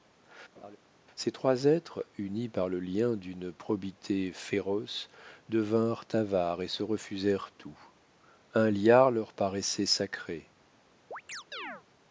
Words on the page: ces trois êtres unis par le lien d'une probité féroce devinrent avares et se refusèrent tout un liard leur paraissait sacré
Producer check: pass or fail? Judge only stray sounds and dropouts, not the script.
fail